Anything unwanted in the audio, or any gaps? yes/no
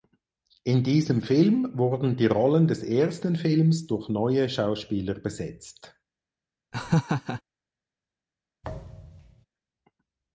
yes